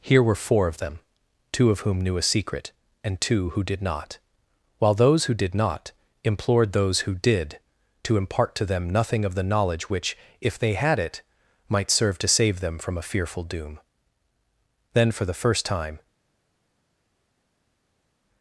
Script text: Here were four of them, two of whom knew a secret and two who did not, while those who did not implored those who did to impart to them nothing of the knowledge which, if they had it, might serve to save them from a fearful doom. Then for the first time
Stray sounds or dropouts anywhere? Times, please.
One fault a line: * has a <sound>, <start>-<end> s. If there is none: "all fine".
all fine